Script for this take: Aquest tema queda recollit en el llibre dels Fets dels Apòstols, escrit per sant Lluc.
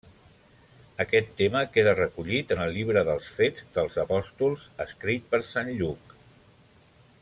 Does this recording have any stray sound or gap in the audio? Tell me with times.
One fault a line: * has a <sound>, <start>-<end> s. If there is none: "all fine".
all fine